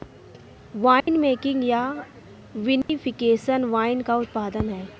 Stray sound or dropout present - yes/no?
yes